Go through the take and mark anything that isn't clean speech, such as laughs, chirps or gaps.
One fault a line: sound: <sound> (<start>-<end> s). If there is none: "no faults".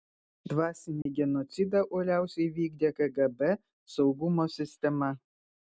sound: dropout (1.0-1.1 s)